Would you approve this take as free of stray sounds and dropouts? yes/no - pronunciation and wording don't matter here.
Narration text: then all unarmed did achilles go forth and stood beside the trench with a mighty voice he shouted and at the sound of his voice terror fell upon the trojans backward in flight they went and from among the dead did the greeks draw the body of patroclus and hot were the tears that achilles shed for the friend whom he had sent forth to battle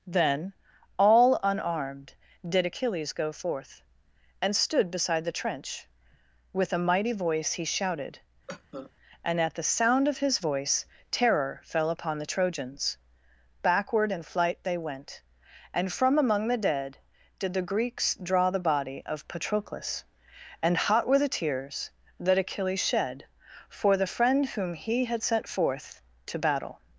no